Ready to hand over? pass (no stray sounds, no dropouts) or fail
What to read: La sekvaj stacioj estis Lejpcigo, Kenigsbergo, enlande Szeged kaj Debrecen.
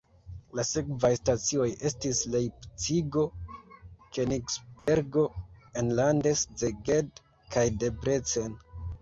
fail